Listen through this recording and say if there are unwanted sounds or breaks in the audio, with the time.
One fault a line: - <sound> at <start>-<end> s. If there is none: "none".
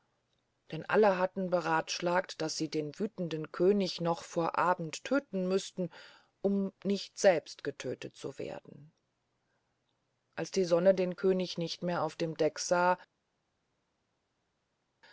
none